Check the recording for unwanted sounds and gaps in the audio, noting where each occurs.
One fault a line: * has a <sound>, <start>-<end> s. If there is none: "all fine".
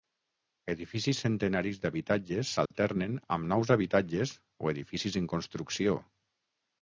* has a dropout, 2.7-2.7 s